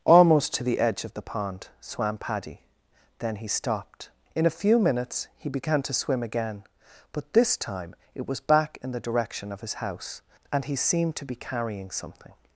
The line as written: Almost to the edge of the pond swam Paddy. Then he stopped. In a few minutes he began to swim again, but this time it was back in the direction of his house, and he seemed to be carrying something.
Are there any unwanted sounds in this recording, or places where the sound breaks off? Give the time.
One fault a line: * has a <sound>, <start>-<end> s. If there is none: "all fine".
all fine